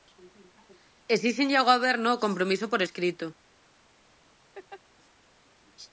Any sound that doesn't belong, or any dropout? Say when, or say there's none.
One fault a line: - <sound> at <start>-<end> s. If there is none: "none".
- laugh at 4.5-4.8 s